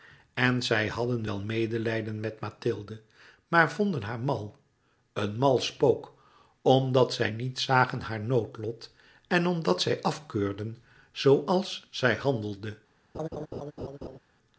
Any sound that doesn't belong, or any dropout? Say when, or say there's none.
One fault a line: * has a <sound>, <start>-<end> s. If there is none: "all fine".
* has a laugh, 13.1-14.2 s